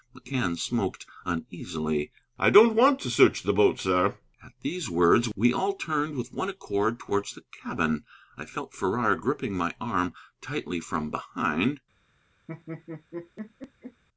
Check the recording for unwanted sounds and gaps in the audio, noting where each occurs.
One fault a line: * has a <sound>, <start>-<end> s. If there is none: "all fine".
* has a laugh, 12.5-14.0 s